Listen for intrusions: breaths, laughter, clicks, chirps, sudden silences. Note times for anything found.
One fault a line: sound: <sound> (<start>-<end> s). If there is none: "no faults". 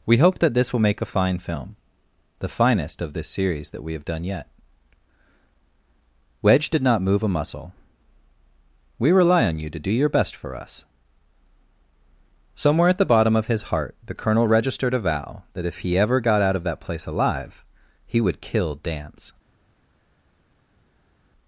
no faults